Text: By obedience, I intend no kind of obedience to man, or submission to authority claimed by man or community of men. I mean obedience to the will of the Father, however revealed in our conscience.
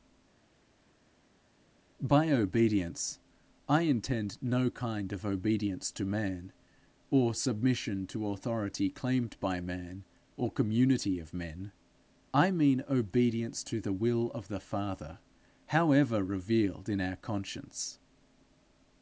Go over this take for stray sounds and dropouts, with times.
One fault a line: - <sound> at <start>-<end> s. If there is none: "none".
none